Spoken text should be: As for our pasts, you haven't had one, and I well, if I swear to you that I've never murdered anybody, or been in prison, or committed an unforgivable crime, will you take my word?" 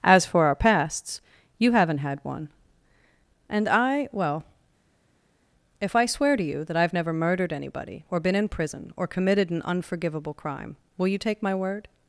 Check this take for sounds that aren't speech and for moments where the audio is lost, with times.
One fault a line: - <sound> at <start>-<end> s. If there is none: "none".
none